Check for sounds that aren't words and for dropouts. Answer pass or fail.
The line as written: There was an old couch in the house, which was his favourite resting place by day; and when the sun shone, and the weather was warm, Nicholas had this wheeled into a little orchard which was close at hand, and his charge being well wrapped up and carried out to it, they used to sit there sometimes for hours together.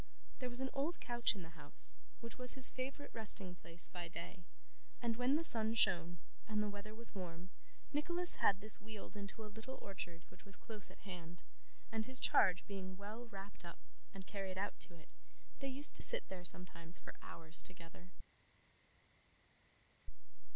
pass